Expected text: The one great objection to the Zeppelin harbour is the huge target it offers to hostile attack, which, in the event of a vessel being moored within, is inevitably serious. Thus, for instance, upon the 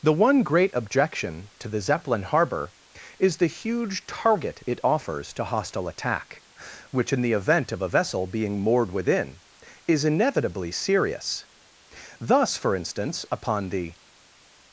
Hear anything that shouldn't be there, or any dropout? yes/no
no